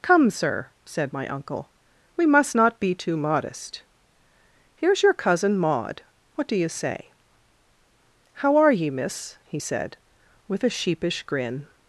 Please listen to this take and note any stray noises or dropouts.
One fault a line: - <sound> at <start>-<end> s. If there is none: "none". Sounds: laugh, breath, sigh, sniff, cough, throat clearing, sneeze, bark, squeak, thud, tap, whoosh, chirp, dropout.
none